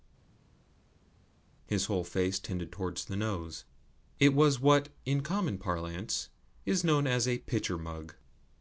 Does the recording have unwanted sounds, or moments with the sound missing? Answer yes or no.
no